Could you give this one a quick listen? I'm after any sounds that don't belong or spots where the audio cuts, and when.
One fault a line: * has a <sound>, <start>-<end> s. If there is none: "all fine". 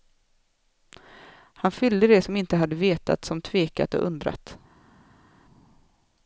all fine